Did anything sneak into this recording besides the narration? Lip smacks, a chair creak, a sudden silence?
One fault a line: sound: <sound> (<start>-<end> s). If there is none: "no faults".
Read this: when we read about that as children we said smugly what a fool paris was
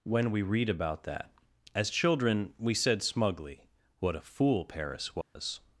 sound: dropout (5.2-5.4 s)